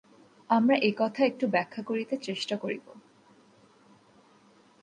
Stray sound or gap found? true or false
false